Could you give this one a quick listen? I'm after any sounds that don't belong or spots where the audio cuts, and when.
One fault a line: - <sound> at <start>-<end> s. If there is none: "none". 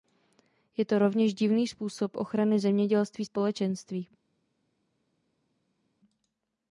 none